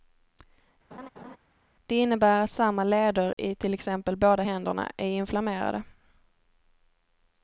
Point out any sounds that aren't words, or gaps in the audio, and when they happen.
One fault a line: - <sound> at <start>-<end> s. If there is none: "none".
- laugh at 0.9-1.4 s
- dropout at 3.3-3.4 s